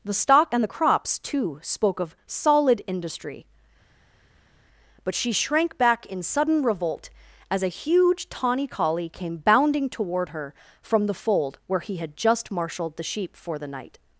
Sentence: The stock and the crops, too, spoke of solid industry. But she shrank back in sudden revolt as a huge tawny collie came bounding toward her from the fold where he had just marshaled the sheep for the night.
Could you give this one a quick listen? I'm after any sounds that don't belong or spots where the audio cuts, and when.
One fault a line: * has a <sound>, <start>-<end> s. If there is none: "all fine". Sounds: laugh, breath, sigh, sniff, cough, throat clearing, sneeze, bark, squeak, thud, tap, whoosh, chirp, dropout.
all fine